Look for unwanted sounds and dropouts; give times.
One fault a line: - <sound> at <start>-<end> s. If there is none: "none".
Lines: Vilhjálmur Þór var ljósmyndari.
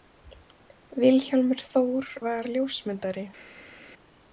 none